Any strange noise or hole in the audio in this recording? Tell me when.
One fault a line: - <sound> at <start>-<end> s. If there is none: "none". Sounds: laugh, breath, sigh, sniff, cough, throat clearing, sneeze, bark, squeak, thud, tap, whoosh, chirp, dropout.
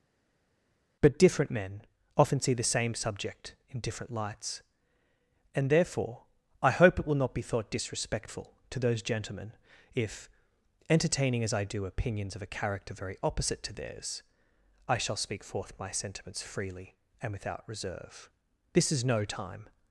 none